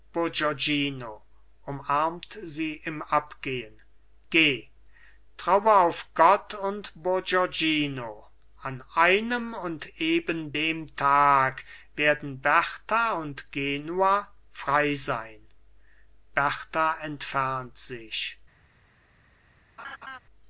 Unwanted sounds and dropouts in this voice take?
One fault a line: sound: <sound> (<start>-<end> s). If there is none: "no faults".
sound: laugh (19.8-20.2 s)